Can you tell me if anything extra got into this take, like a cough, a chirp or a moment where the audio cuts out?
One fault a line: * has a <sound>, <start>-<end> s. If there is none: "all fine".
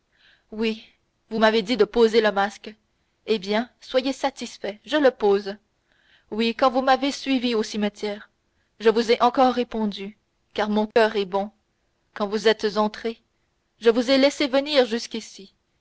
* has a dropout, 10.9-11.0 s